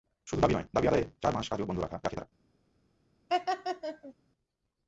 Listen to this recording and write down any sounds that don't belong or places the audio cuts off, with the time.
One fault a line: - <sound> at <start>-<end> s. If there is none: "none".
- laugh at 3.3-4.1 s